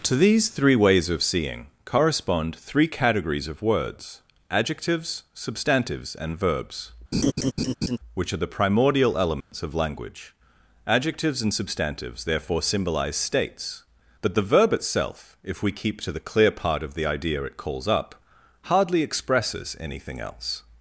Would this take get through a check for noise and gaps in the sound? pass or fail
fail